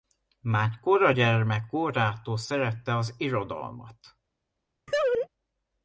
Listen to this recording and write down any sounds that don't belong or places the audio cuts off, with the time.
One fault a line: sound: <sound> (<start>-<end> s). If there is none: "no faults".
sound: laugh (4.9-5.3 s)